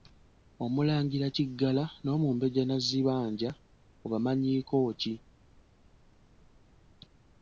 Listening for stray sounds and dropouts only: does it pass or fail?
pass